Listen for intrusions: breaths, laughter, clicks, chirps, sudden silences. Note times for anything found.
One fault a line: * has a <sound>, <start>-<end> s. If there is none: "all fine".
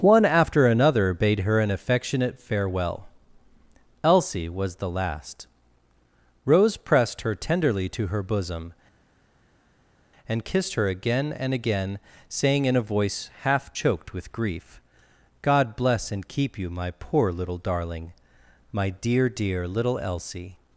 all fine